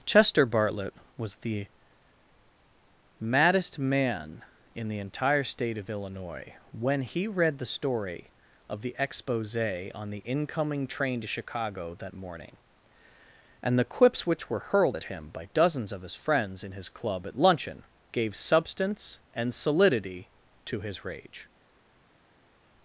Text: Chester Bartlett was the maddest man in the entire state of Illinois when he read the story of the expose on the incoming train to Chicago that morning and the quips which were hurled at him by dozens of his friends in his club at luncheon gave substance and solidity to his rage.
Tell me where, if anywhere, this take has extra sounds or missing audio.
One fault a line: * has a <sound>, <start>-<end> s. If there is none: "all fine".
all fine